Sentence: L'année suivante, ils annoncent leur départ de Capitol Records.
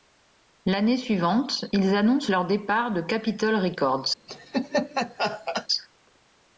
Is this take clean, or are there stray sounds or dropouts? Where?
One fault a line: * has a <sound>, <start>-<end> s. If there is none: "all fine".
* has a laugh, 4.3-5.7 s